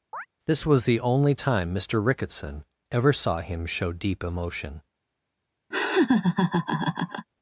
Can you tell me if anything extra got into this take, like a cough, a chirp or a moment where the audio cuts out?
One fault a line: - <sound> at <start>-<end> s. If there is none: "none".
- chirp at 0.1-0.3 s
- laugh at 5.7-7.3 s